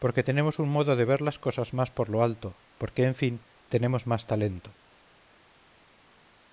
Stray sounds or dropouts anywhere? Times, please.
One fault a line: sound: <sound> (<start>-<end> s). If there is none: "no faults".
no faults